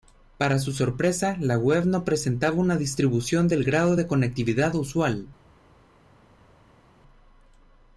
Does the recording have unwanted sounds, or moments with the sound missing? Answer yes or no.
no